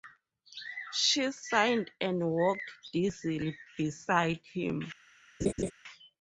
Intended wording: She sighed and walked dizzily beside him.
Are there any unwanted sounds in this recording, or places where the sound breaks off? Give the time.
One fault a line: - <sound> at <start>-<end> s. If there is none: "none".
- laugh at 5.4-5.7 s